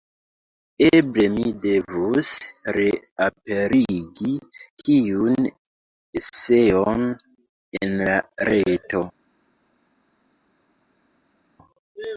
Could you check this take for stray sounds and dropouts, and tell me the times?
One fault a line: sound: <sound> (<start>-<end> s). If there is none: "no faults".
no faults